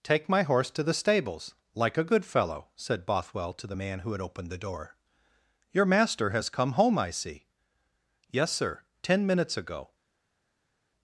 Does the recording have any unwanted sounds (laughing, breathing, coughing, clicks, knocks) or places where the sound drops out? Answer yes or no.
no